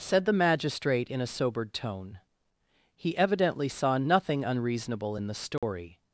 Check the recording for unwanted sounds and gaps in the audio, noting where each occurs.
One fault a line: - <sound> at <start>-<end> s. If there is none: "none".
- dropout at 5.6-5.6 s